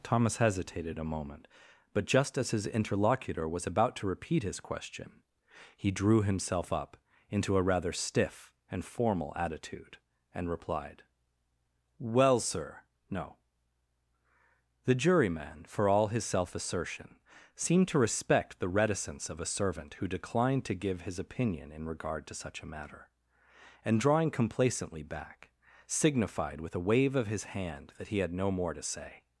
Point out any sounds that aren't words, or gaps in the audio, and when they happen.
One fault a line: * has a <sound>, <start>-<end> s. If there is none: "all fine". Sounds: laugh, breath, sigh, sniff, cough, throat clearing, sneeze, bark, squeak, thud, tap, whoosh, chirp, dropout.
all fine